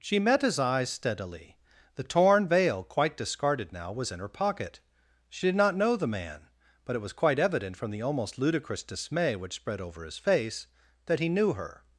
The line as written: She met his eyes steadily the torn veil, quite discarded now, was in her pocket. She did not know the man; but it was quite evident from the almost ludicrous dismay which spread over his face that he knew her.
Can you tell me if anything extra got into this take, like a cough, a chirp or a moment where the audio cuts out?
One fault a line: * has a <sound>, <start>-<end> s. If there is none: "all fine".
all fine